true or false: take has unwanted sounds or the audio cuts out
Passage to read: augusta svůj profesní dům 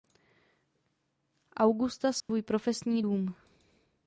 true